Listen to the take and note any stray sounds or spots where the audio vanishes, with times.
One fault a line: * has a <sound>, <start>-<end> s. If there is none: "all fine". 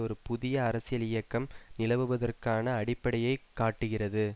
all fine